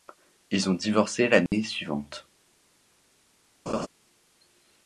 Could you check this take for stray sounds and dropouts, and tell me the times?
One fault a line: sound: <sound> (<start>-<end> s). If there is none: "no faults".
sound: dropout (1.5-1.5 s)
sound: laugh (3.7-3.9 s)